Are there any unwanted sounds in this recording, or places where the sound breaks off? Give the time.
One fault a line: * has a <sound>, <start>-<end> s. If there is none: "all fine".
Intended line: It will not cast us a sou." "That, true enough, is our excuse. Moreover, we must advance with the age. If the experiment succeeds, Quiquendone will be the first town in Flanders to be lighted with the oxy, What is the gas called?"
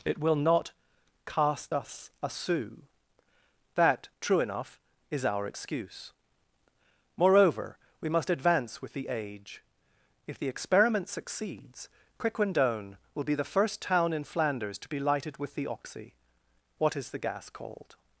all fine